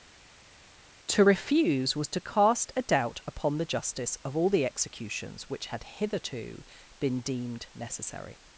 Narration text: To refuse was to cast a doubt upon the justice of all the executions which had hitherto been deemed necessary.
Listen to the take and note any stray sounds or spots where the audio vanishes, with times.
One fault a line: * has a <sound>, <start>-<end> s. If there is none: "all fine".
all fine